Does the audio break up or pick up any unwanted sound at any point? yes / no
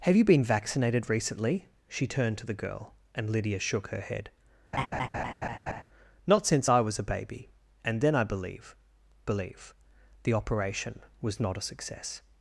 yes